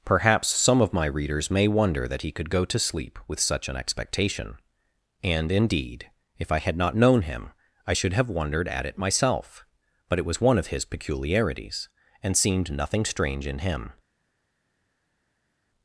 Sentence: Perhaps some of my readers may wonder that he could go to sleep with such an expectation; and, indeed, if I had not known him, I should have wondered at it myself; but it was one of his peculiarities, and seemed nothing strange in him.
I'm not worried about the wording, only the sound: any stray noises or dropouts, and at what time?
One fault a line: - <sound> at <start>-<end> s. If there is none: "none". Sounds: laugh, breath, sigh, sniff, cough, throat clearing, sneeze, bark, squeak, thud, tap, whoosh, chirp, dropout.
none